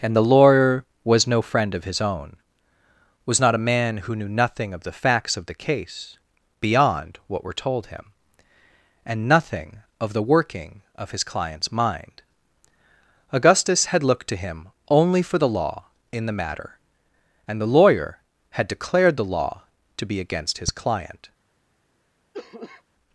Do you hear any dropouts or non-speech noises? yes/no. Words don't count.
yes